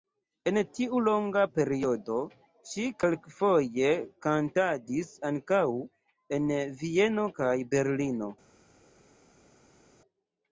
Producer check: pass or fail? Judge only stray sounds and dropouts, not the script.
pass